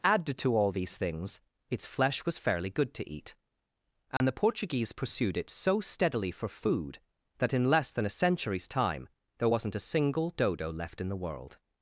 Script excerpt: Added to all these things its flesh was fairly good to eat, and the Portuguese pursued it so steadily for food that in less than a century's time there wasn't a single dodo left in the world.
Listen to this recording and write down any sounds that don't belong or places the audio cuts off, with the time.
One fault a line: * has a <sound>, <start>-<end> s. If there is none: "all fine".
* has a dropout, 4.2-4.2 s